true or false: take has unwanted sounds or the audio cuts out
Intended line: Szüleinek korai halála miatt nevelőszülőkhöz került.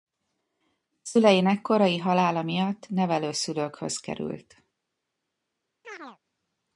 true